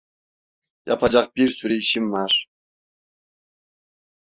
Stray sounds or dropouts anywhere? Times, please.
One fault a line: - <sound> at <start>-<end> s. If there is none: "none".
none